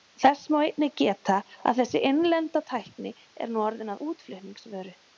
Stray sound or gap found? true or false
false